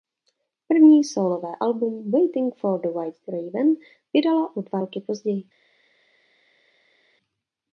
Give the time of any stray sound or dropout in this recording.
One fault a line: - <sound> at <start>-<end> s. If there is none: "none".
none